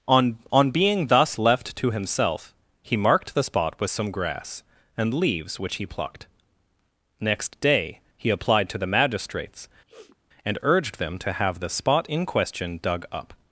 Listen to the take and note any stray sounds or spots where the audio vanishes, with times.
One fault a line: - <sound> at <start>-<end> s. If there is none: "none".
- sniff at 9.9-10.2 s